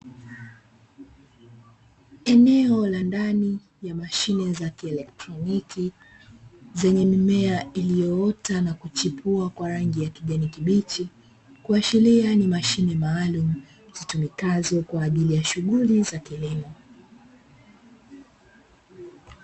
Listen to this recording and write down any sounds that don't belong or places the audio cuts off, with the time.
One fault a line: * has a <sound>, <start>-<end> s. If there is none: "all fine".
all fine